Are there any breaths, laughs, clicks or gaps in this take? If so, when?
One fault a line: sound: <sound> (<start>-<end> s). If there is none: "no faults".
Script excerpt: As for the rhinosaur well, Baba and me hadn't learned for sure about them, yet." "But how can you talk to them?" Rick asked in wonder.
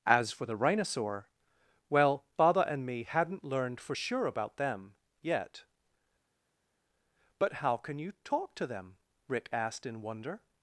no faults